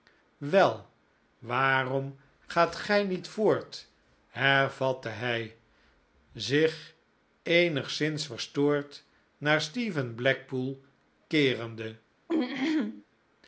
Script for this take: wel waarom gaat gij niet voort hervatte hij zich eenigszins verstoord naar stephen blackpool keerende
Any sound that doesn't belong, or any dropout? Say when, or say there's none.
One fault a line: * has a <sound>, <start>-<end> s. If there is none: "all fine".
* has a throat clearing, 12.3-13.0 s